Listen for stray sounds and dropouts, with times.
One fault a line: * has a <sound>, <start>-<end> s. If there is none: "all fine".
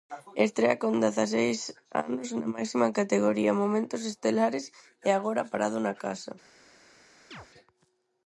* has a chirp, 7.3-7.5 s